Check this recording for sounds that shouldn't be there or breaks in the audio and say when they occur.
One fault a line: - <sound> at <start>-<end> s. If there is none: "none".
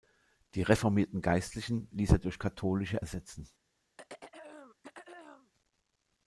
- throat clearing at 4.0-5.5 s